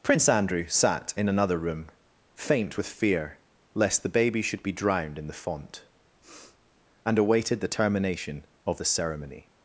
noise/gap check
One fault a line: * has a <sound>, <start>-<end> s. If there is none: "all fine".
* has a sniff, 6.2-6.6 s